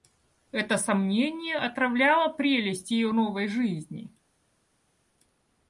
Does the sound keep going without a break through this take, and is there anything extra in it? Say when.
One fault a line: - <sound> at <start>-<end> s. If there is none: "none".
none